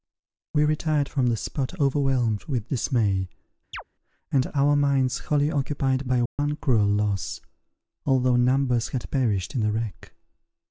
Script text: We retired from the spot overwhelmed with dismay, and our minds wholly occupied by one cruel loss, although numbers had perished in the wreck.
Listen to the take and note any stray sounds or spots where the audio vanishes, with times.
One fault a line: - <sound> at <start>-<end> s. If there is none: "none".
- chirp at 3.7-3.8 s
- dropout at 6.3-6.4 s